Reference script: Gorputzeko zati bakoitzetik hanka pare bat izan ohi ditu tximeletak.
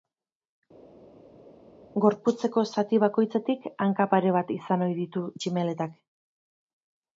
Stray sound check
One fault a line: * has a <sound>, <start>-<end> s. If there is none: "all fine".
all fine